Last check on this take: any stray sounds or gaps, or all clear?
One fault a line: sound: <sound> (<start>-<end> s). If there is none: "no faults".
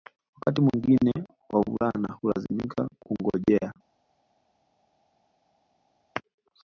no faults